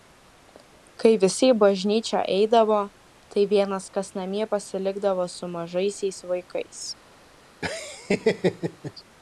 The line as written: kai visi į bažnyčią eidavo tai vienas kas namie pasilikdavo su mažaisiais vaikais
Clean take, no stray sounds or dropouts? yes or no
no